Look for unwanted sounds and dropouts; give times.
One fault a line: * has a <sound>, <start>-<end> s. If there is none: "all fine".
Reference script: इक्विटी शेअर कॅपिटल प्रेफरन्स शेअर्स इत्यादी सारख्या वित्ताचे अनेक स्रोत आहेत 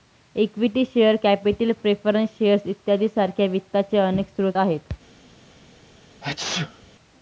* has a sneeze, 6.2-6.9 s